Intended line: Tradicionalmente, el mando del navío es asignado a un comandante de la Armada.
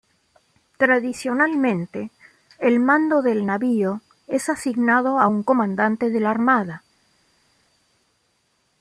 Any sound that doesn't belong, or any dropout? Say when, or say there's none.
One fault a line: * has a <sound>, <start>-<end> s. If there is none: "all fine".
all fine